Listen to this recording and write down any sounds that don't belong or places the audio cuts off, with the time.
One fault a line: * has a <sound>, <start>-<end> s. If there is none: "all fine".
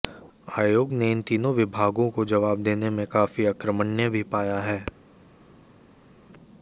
all fine